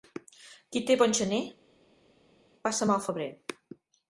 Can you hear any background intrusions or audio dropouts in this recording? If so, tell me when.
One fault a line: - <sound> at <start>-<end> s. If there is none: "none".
none